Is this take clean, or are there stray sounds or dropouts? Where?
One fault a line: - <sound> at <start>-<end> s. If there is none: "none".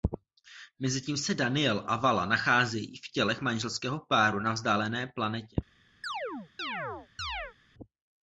- chirp at 6.0-7.5 s